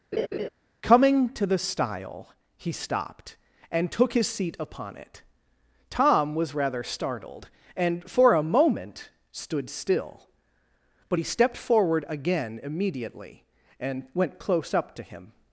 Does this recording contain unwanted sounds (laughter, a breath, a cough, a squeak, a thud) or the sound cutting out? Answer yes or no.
yes